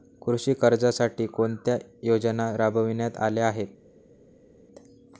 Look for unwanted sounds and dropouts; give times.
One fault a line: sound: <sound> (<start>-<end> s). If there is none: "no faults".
no faults